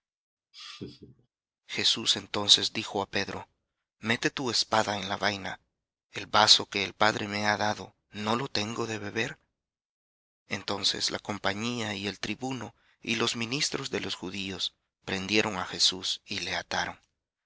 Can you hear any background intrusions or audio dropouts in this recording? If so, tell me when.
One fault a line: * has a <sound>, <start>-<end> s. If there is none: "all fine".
* has a laugh, 0.5-1.3 s